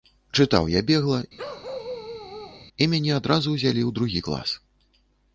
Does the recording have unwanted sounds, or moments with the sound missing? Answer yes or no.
yes